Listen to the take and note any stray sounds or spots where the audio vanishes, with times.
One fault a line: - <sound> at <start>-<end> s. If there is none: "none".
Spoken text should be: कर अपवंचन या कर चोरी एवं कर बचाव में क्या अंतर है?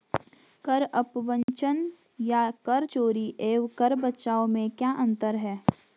- dropout at 1.4-1.5 s